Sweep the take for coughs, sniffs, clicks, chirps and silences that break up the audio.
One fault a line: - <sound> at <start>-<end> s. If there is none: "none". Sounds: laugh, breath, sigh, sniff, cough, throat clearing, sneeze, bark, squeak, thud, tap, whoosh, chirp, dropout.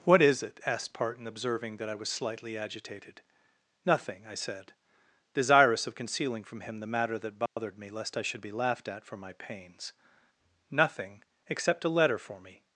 - dropout at 7.5-7.6 s